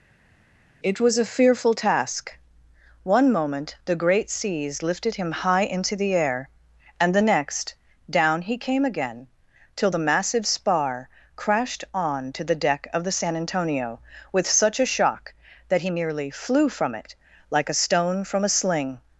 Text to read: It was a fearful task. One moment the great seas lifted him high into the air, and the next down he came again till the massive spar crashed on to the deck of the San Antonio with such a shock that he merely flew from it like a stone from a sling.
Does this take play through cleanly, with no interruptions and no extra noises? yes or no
yes